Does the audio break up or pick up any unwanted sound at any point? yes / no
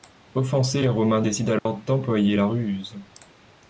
yes